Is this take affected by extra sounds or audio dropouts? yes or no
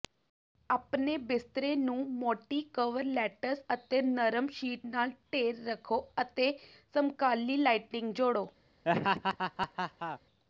yes